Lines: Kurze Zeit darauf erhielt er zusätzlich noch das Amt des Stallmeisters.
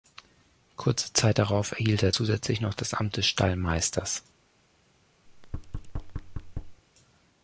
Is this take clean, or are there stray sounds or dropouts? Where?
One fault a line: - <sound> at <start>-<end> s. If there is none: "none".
- thud at 5.3-6.8 s